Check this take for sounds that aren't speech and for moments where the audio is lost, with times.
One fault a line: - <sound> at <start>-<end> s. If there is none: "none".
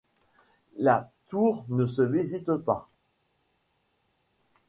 none